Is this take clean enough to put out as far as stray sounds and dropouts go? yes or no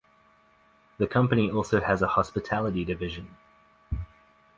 yes